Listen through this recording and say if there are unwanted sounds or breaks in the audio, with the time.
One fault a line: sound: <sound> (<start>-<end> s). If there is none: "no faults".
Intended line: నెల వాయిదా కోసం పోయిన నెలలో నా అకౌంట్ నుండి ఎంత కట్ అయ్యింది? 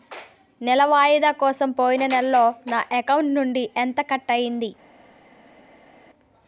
no faults